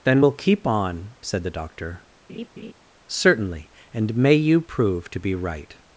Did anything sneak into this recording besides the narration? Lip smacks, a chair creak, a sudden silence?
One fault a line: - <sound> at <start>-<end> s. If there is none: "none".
- laugh at 2.3-2.7 s